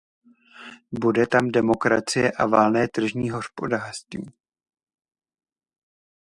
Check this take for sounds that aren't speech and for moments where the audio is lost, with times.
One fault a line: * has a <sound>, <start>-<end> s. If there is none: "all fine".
all fine